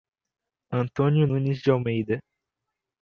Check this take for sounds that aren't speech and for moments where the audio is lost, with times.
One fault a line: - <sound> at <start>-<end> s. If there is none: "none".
none